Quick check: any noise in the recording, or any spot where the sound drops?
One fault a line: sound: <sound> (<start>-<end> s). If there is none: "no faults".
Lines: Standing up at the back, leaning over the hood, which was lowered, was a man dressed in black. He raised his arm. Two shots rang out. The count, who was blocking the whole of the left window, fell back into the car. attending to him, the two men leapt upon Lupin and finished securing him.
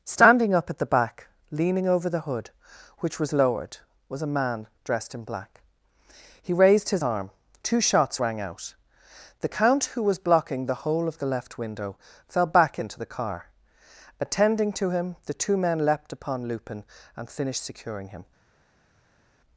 no faults